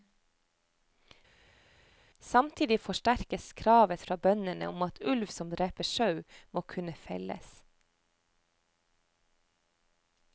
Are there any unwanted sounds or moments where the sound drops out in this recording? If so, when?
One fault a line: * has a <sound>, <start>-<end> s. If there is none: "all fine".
all fine